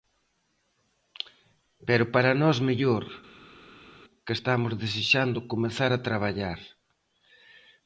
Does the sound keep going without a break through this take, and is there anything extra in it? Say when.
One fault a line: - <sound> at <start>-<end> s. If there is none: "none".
none